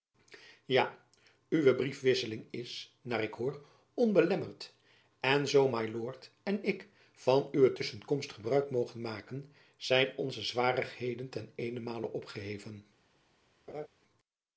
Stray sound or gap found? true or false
true